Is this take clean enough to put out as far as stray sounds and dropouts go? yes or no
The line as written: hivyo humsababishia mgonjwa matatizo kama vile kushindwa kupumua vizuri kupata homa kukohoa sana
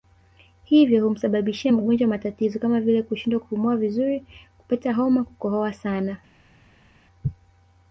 yes